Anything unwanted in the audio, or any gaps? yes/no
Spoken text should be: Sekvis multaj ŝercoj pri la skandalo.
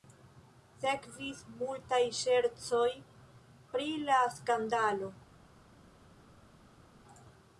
no